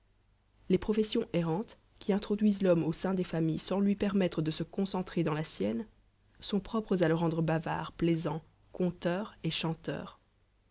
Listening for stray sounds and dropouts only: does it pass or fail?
pass